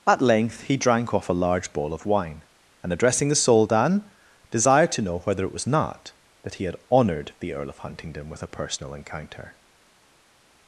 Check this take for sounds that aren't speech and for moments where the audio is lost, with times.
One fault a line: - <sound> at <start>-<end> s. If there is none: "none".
none